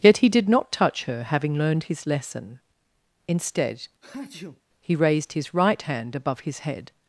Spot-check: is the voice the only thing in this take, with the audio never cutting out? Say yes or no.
no